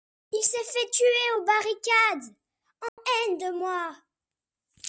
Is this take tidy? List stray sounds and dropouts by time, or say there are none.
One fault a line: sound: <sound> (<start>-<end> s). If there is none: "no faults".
sound: dropout (2.9-3.0 s)